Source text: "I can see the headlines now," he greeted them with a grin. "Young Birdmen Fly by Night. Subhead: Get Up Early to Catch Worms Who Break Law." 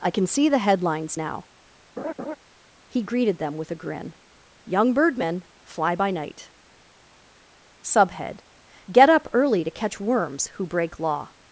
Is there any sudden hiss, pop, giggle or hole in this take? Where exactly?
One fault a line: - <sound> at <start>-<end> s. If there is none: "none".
- laugh at 2.0-2.4 s